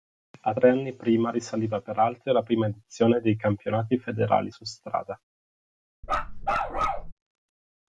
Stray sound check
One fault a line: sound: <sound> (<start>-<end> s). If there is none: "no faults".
sound: bark (6.0-7.1 s)